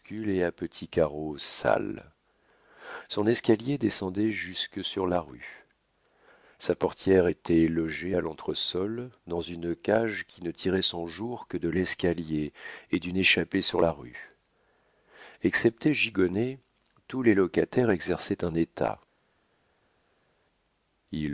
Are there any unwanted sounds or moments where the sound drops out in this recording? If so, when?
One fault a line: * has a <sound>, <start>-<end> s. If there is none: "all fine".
all fine